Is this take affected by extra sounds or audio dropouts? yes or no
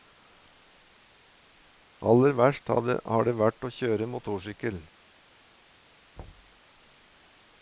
yes